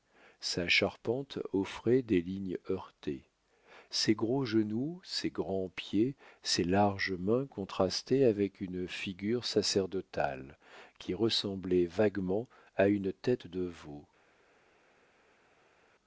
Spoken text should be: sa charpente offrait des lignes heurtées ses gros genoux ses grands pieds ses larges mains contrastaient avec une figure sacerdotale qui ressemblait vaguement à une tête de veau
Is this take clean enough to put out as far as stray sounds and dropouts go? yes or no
yes